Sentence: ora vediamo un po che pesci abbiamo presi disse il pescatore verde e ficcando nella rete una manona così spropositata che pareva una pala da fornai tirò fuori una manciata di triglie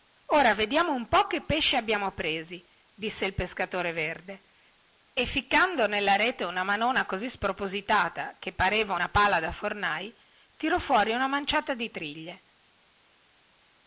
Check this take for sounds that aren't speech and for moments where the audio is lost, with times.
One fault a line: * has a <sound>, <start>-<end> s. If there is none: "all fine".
all fine